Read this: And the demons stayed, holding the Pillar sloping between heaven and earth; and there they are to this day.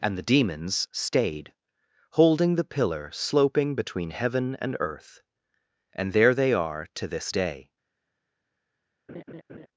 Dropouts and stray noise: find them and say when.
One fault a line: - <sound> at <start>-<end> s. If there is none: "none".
- laugh at 9.1-9.7 s